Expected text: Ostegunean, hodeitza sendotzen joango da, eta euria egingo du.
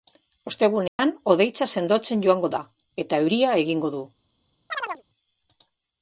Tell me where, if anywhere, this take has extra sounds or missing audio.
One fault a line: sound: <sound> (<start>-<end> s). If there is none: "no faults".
sound: dropout (0.9-1.0 s)
sound: chirp (4.7-5.0 s)